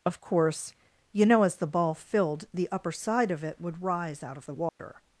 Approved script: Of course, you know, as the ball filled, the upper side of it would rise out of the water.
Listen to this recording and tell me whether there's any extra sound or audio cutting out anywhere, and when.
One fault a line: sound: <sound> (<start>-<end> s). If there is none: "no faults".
sound: dropout (4.7-4.8 s)